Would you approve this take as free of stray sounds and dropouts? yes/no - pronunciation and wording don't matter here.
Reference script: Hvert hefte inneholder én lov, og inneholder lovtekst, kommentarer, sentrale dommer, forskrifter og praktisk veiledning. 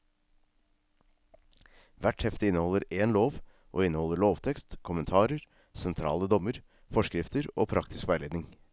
yes